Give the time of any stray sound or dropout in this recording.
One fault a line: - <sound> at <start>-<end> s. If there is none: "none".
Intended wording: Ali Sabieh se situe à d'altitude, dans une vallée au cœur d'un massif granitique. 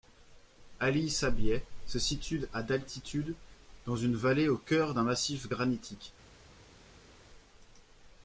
none